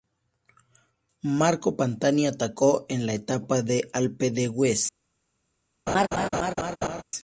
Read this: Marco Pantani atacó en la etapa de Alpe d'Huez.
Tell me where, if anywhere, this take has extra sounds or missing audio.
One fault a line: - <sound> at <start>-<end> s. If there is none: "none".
- laugh at 5.9-7.0 s